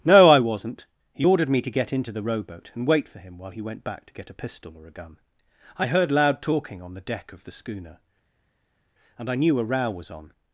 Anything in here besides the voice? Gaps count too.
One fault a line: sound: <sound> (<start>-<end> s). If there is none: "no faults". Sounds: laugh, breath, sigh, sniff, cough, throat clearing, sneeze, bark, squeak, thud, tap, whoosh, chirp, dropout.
no faults